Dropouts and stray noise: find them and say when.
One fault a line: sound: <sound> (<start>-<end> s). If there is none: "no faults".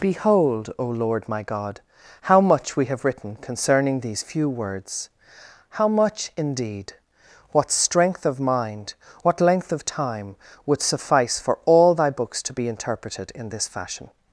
no faults